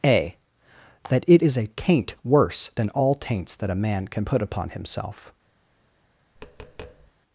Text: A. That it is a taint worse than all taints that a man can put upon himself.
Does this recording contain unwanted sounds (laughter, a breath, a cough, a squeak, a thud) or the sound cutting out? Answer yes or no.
yes